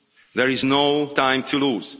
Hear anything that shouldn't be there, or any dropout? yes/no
no